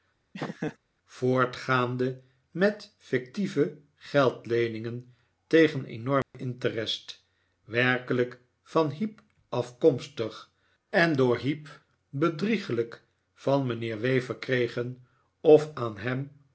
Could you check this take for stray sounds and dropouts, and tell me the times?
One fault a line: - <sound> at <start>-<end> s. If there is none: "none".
- laugh at 0.3-0.8 s
- dropout at 6.2-6.3 s